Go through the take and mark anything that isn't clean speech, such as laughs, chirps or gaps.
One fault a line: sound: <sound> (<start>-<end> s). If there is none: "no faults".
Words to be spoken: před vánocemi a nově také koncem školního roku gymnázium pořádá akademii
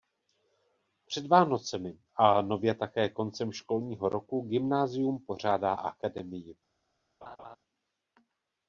sound: laugh (7.2-7.6 s)